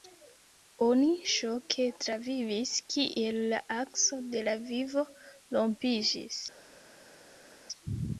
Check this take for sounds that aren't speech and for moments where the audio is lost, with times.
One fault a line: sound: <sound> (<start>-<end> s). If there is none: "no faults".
no faults